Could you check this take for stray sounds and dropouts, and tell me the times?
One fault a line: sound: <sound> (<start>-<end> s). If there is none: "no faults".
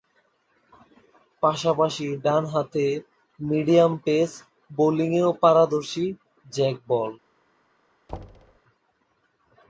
sound: thud (8.1-8.6 s)